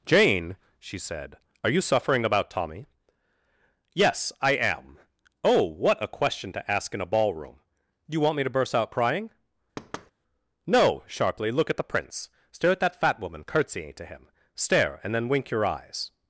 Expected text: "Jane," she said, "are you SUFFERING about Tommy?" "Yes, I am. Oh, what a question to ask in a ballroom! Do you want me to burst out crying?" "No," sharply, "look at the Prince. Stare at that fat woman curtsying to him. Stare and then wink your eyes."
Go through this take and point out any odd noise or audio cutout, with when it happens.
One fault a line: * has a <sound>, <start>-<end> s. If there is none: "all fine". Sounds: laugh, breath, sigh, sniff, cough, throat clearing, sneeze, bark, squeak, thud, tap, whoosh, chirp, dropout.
* has a thud, 9.8-10.1 s